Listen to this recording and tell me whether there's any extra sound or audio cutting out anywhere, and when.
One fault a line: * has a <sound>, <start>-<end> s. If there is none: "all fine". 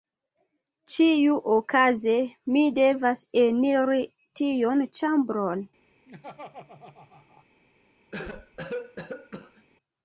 * has a laugh, 6.1-7.5 s
* has a cough, 8.1-9.7 s